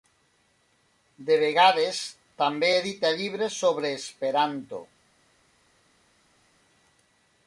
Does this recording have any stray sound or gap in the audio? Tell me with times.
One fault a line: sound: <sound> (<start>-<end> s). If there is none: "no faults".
no faults